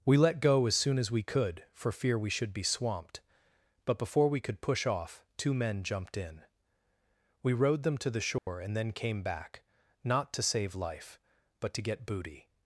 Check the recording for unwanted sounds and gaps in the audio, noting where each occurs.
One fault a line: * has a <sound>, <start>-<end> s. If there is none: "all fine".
* has a dropout, 8.4-8.5 s